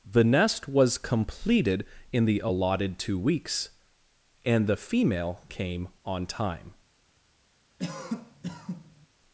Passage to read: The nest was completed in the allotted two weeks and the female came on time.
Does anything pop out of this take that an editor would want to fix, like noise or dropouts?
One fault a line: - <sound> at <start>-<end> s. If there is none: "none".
- cough at 7.8-9.1 s